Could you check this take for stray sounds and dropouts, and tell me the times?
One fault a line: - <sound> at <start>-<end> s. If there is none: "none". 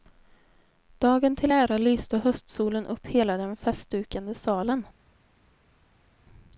none